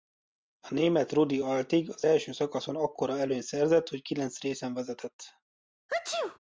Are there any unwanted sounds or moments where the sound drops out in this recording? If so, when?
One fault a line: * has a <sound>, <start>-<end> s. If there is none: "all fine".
* has a sneeze, 5.9-6.4 s